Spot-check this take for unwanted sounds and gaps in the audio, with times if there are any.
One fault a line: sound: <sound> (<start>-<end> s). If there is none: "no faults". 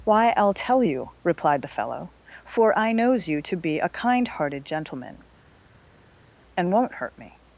no faults